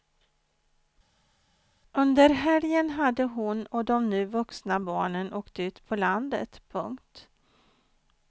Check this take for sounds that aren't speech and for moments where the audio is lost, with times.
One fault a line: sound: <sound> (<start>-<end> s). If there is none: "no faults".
no faults